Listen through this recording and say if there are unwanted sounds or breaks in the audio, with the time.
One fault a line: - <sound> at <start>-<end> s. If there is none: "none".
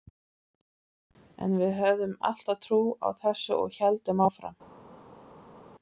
none